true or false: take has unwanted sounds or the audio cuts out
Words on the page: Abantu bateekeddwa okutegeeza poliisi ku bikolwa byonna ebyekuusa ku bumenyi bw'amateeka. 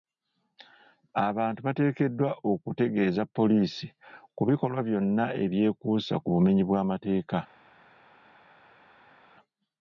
false